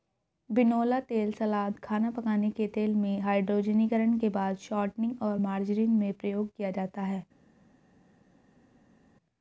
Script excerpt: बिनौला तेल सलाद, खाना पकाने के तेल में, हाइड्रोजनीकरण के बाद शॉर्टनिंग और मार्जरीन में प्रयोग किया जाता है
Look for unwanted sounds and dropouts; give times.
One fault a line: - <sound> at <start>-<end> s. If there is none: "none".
none